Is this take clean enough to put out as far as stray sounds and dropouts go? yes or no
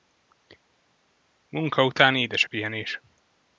yes